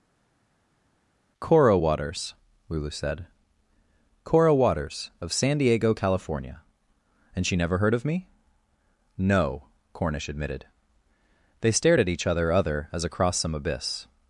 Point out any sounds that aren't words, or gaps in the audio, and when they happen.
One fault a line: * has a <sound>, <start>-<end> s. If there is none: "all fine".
all fine